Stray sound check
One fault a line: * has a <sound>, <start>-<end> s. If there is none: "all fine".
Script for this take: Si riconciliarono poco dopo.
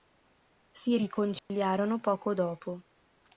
* has a dropout, 1.4-1.5 s